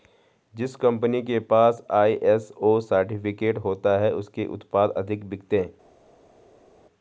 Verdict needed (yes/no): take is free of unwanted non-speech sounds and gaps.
yes